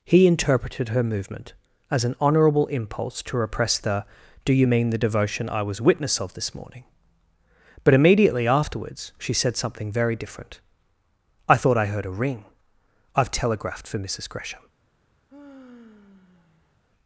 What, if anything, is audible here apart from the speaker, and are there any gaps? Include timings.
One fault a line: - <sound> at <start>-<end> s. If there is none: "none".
- sigh at 15.3-16.8 s